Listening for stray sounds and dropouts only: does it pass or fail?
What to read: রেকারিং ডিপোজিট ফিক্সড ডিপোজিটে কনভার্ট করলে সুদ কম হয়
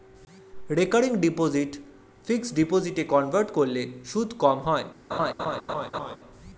fail